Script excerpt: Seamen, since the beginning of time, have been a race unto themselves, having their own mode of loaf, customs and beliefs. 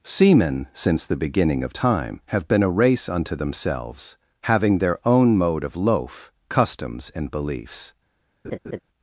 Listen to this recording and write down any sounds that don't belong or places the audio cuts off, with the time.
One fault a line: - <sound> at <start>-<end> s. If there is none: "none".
- laugh at 8.4-8.8 s